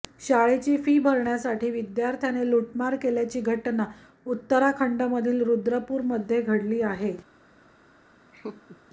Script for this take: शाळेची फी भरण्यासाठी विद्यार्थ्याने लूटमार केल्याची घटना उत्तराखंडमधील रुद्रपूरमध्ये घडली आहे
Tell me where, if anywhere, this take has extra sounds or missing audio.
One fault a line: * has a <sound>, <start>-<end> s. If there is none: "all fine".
* has a laugh, 8.3-8.8 s